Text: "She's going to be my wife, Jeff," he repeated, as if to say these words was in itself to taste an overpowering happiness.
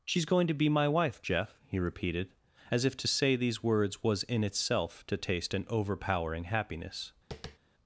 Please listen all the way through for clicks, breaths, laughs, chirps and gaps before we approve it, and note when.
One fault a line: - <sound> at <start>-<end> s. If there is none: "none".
- tap at 7.3-7.6 s